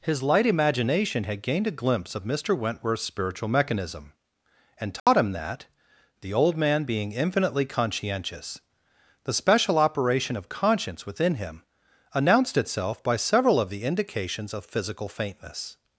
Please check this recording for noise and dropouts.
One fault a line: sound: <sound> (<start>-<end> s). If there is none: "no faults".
sound: dropout (5.0-5.1 s)